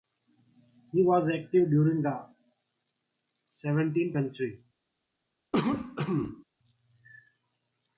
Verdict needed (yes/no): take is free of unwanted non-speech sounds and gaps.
no